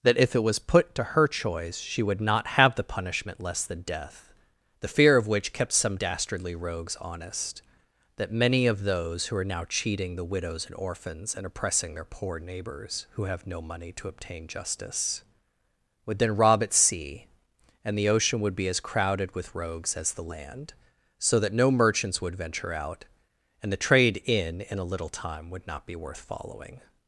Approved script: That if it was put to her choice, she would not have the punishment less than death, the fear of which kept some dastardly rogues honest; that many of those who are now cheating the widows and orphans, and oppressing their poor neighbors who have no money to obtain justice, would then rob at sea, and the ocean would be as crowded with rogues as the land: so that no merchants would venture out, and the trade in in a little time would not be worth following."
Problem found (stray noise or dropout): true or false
false